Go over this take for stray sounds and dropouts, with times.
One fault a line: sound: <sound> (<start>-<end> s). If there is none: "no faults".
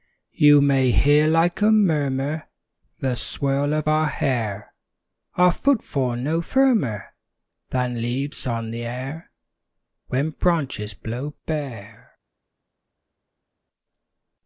no faults